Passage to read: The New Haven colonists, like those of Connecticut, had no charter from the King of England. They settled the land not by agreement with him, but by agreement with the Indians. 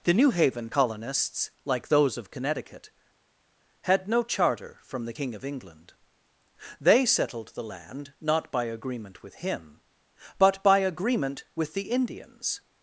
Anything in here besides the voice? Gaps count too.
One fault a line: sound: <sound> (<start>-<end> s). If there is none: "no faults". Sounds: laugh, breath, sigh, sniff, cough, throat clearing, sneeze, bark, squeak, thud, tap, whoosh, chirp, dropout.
no faults